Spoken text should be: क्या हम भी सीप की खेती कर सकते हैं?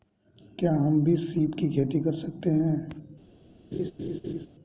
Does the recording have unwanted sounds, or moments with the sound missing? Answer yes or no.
yes